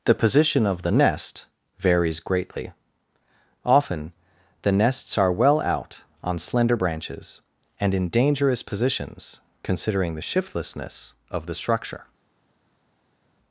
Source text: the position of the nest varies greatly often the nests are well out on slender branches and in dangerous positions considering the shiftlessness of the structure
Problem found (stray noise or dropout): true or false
false